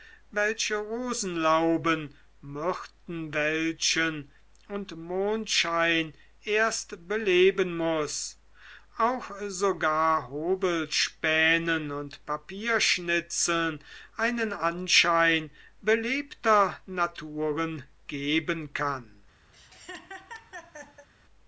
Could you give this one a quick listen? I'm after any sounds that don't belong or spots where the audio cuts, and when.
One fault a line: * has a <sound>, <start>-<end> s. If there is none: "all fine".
* has a laugh, 19.5-21.1 s